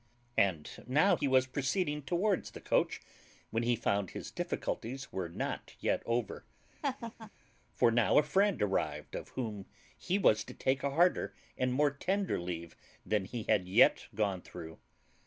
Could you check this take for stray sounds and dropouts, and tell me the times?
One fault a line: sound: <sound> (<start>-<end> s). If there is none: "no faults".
sound: laugh (6.8-7.3 s)